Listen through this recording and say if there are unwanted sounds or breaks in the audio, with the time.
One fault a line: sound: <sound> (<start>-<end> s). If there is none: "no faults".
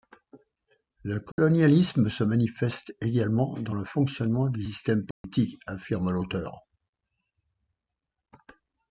sound: dropout (1.3-1.4 s)
sound: dropout (5.1-5.2 s)